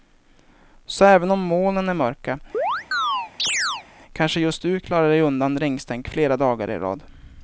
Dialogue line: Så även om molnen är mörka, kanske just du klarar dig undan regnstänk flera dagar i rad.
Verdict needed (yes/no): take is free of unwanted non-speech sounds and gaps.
no